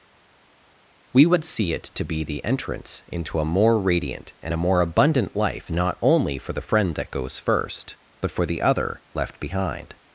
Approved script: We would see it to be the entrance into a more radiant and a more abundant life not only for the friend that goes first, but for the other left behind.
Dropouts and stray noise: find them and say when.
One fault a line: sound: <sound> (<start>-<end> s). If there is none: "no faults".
no faults